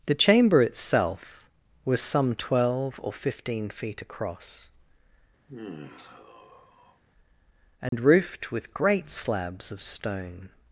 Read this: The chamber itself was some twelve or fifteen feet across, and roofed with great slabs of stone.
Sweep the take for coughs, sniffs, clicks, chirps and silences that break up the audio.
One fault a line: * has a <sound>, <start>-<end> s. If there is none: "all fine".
* has a sigh, 5.5-7.0 s
* has a dropout, 7.9-7.9 s